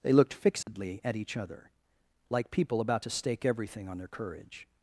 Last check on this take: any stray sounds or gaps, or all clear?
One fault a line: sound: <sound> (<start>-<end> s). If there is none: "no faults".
sound: dropout (0.6-0.7 s)